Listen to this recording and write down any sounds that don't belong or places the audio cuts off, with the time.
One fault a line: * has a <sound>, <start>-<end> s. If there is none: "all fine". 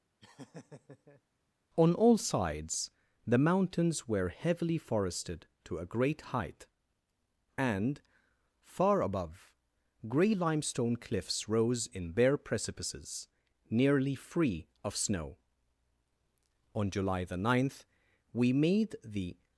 * has a laugh, 0.2-1.2 s